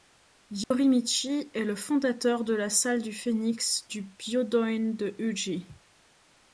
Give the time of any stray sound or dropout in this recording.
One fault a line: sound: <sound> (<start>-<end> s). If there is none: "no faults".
sound: dropout (0.6-0.7 s)